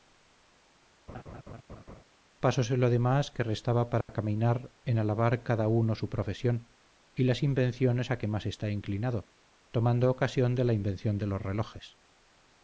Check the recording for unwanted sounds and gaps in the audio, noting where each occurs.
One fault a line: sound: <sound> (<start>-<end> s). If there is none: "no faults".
sound: laugh (1.1-2.0 s)
sound: dropout (4.0-4.1 s)